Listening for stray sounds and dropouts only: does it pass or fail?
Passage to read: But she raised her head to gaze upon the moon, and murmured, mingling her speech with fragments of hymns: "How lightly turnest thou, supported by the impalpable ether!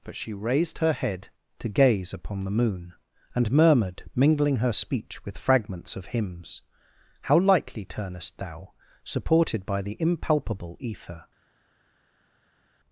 pass